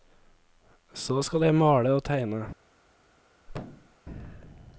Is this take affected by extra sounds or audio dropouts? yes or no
yes